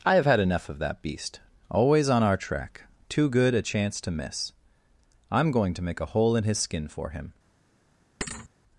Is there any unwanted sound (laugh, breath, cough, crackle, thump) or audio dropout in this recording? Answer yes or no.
yes